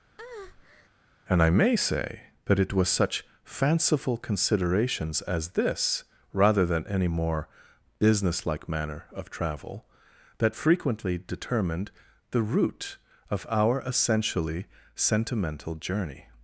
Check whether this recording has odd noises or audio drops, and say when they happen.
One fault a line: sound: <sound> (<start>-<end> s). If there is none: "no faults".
sound: breath (0.2-0.9 s)